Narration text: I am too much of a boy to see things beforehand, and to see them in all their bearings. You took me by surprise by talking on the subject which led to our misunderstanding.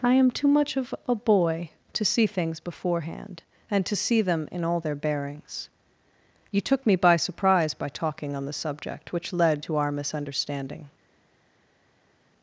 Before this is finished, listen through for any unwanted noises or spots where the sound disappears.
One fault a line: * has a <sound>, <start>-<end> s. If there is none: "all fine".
all fine